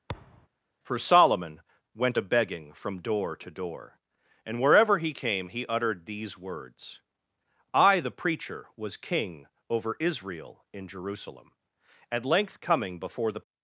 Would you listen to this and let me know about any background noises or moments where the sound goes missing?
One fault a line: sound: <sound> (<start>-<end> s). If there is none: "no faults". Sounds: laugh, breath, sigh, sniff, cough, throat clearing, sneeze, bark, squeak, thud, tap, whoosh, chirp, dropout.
sound: thud (0.1-0.5 s)